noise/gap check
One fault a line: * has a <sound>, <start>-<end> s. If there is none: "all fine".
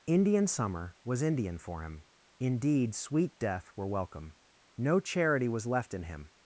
all fine